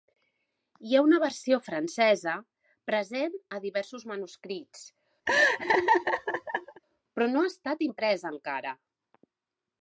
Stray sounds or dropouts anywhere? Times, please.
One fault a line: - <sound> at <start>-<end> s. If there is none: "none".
- laugh at 5.3-6.8 s